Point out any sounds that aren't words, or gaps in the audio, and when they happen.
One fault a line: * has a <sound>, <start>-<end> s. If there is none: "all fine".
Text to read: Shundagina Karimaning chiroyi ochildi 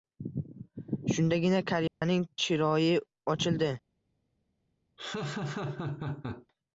* has a dropout, 1.9-2.0 s
* has a laugh, 5.0-6.5 s